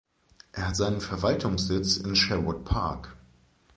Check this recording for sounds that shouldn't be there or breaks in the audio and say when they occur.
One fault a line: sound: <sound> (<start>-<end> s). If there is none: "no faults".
no faults